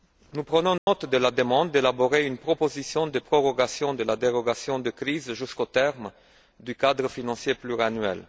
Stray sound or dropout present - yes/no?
yes